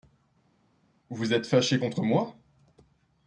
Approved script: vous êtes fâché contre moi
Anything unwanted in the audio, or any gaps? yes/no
no